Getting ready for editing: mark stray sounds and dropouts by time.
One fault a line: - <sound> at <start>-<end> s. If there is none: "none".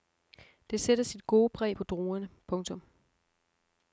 none